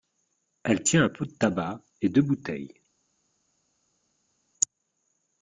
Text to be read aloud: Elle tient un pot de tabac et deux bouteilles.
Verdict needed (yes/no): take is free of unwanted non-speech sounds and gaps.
yes